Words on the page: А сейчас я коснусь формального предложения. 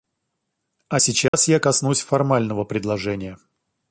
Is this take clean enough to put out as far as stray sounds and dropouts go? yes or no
no